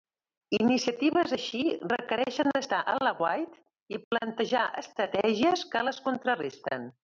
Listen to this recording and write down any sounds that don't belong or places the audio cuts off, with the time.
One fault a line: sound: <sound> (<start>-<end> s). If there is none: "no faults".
no faults